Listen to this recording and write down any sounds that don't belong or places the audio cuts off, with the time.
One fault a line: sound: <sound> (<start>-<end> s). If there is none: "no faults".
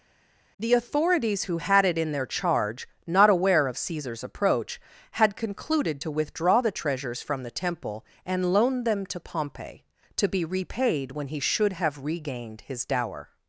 no faults